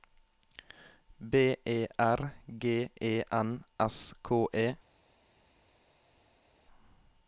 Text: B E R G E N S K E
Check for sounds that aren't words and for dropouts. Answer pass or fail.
pass